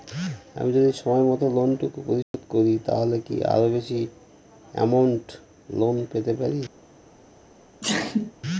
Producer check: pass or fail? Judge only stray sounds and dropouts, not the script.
fail